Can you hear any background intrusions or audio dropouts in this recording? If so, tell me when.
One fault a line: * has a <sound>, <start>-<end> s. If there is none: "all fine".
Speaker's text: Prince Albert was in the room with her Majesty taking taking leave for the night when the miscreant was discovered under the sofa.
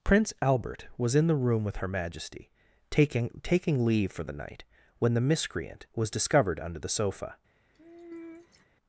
* has a sigh, 7.7-8.7 s